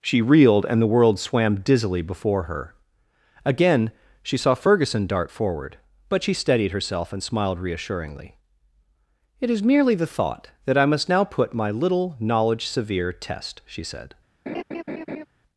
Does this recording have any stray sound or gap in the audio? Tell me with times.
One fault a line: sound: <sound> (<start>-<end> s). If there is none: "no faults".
sound: laugh (14.5-15.3 s)